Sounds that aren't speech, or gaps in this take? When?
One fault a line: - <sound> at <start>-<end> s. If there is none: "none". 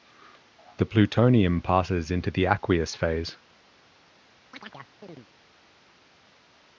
- chirp at 4.5-5.3 s